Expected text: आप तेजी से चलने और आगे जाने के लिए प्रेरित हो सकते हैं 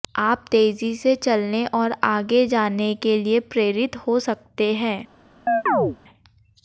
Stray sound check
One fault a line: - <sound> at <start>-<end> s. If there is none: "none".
- chirp at 5.5-6.0 s